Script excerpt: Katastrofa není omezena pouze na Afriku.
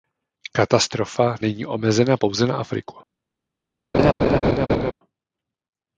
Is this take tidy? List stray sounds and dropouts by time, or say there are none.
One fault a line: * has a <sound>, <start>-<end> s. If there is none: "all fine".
* has a laugh, 3.9-4.9 s